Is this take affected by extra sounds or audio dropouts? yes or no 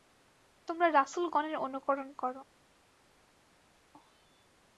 no